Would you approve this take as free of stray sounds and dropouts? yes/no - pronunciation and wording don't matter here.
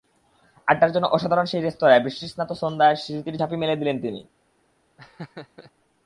no